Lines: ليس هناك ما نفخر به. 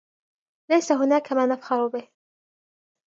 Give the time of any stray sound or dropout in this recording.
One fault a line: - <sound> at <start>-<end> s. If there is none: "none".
none